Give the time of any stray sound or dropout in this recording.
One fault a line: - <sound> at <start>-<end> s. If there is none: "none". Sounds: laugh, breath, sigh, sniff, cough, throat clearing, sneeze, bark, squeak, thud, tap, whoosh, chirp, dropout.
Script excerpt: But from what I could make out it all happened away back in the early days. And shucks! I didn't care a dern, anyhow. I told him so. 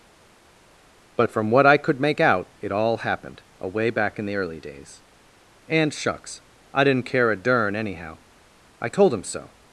none